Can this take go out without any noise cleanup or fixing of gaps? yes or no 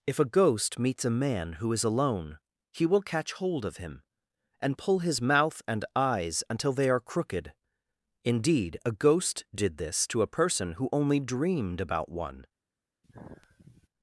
no